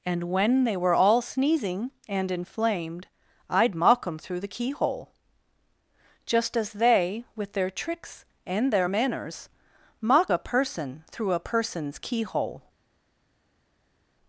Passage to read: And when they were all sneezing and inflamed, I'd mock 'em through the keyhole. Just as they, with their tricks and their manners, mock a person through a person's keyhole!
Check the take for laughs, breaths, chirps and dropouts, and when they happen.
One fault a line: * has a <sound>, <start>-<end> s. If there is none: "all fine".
all fine